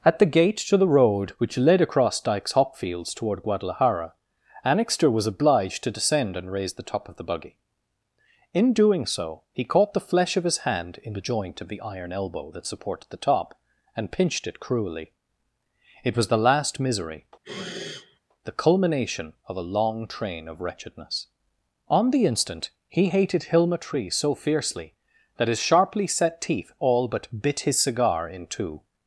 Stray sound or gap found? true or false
true